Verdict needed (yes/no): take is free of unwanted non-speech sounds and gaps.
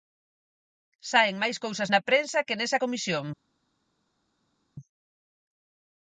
yes